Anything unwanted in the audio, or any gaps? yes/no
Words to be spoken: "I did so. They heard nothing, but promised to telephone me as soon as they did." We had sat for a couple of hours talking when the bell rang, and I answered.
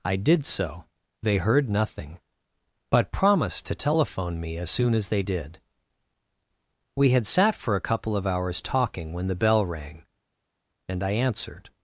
no